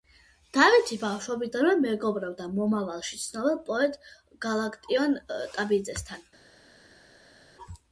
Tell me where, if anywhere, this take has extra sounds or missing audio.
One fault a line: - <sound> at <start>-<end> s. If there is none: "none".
none